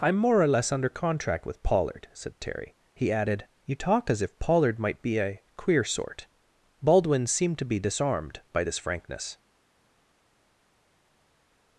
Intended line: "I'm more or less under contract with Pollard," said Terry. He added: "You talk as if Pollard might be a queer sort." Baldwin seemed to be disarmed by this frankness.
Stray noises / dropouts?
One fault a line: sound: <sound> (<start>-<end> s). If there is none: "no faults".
no faults